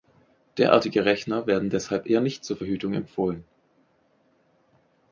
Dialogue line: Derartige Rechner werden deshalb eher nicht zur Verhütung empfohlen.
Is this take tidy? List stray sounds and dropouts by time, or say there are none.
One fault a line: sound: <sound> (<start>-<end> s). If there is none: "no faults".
no faults